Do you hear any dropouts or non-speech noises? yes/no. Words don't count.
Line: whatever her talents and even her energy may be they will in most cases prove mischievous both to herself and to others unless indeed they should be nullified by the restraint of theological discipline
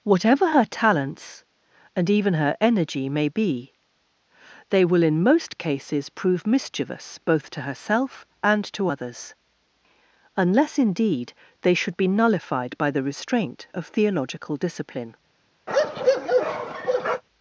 yes